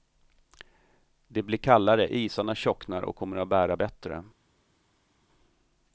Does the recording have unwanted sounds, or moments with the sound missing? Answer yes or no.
no